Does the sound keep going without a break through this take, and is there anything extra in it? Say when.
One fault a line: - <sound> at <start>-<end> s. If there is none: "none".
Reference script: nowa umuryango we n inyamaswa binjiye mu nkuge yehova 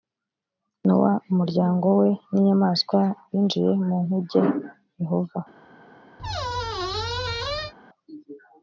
- squeak at 6.2-7.7 s